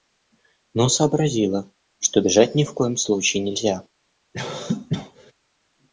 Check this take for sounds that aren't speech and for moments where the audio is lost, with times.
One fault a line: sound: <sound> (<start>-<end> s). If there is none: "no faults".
sound: cough (4.3-5.3 s)